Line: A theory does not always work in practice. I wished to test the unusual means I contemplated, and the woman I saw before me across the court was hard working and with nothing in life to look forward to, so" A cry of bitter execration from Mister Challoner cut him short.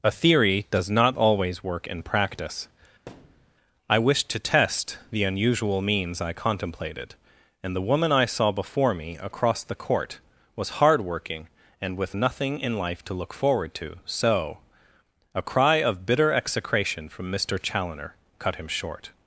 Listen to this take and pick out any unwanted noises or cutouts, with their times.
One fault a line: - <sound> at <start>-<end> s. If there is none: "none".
- thud at 3.1-3.5 s